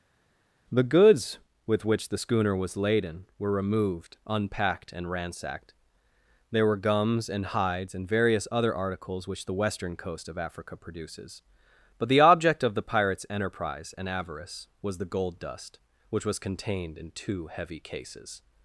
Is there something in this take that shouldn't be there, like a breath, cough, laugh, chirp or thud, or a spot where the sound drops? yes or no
no